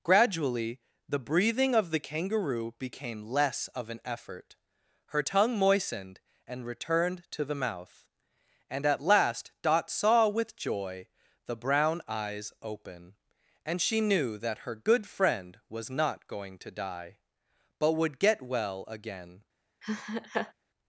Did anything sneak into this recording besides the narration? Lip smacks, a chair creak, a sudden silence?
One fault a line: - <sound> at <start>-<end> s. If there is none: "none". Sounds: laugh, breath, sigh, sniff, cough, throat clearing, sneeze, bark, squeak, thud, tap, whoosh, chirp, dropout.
- laugh at 19.8-20.5 s